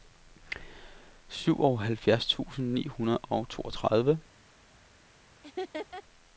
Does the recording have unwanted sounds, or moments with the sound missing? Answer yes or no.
yes